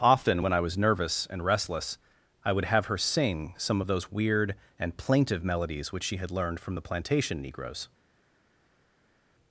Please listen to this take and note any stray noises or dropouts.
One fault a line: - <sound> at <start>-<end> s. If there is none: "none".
none